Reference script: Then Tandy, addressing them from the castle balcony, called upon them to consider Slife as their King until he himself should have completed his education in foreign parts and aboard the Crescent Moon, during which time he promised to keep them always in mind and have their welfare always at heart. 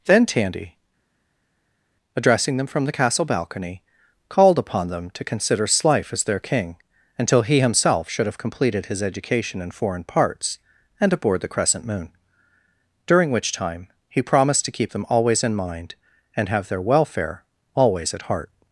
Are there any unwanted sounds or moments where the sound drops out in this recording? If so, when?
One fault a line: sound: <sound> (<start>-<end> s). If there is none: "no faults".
no faults